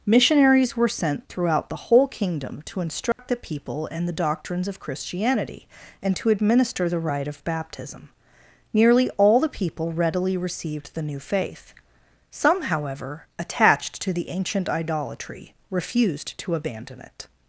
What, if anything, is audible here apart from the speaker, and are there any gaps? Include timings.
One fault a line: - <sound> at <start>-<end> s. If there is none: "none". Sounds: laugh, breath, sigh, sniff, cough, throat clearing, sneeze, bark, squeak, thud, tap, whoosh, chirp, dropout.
- dropout at 3.1-3.2 s